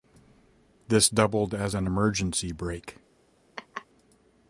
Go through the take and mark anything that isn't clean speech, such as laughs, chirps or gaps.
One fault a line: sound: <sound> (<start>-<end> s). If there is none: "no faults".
sound: laugh (3.6-3.9 s)